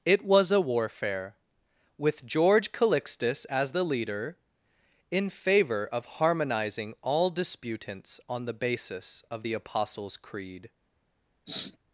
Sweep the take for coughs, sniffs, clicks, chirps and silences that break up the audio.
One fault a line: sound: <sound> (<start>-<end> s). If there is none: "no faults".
sound: sniff (11.5-11.8 s)